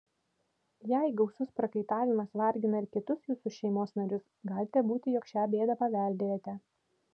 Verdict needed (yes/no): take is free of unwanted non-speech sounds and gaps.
yes